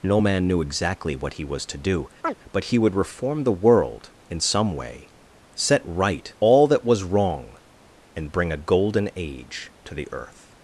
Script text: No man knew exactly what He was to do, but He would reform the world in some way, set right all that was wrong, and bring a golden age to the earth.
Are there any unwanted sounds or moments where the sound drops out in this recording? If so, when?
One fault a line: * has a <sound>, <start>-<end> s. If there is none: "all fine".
* has a chirp, 2.2-2.3 s